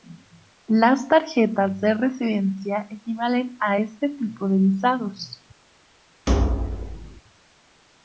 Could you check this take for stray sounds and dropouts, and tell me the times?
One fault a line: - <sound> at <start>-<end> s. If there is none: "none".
- thud at 6.3-7.2 s